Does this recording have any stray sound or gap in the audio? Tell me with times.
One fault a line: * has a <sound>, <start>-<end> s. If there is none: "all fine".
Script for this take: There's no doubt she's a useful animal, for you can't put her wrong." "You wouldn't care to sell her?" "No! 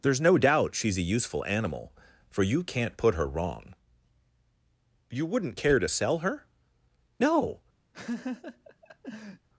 * has a laugh, 7.9-9.5 s